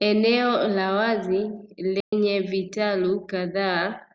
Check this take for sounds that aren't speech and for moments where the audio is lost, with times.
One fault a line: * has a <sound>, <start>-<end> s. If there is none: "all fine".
* has a dropout, 2.0-2.1 s